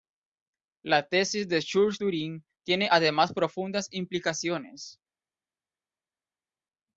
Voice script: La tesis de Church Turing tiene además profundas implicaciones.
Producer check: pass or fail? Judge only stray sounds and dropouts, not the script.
pass